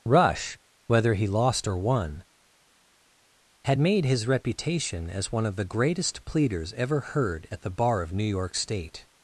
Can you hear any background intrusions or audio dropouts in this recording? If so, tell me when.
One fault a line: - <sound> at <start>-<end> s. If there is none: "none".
none